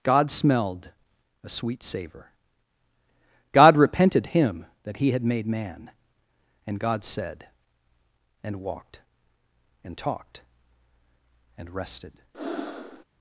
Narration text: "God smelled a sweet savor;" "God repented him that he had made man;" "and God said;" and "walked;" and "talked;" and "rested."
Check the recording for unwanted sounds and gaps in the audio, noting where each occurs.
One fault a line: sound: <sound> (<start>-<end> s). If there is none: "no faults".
sound: breath (12.3-13.0 s)